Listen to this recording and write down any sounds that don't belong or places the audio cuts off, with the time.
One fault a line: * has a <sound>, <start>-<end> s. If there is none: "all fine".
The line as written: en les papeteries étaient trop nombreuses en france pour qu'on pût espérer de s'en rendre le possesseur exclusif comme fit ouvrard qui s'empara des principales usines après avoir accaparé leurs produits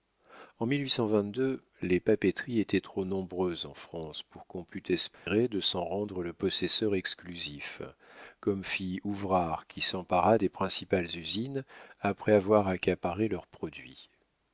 * has a dropout, 5.1-5.3 s